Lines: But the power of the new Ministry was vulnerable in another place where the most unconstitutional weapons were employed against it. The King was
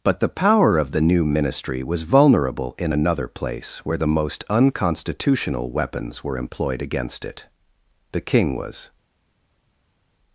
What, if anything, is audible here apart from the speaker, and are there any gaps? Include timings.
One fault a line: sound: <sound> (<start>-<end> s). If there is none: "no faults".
no faults